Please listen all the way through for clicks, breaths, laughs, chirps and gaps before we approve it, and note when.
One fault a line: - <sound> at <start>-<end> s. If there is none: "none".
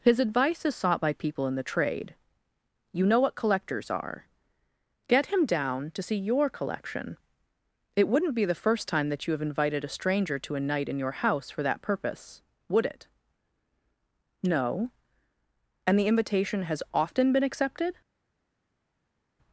none